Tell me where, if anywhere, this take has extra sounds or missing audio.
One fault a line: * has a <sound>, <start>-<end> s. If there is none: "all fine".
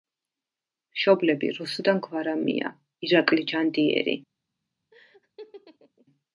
* has a laugh, 4.9-6.1 s